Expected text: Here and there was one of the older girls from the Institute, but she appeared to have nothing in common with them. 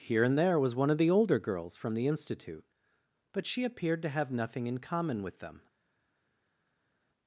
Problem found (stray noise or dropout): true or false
false